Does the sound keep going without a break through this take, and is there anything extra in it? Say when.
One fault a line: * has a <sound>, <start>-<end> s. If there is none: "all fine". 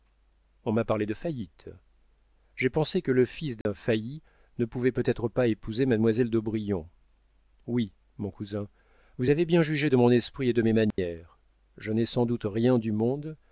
* has a dropout, 3.6-3.7 s
* has a dropout, 10.9-11.0 s